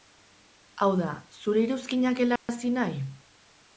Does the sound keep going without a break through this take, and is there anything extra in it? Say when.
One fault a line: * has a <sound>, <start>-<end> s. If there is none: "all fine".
* has a dropout, 2.4-2.5 s